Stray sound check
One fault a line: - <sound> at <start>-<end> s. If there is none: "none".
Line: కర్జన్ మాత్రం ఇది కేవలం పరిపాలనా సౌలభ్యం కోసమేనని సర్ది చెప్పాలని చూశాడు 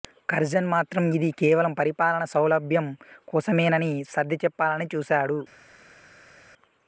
none